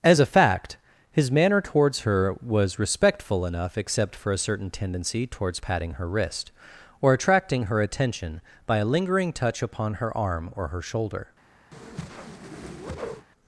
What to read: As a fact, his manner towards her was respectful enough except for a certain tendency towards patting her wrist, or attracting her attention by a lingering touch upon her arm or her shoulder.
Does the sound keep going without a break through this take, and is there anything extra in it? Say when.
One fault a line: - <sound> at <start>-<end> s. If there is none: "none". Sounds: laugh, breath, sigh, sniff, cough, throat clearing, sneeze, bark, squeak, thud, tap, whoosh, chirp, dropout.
- whoosh at 11.7-13.3 s